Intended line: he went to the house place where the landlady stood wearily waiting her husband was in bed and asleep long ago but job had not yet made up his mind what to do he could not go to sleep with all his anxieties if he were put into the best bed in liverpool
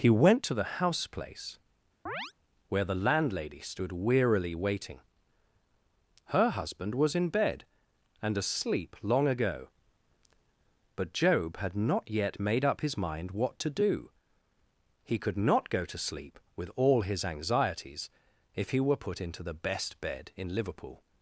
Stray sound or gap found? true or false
true